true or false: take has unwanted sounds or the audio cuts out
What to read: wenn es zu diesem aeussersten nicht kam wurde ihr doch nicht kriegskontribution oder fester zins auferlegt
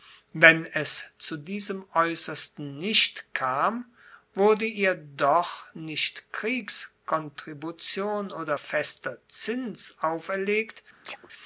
true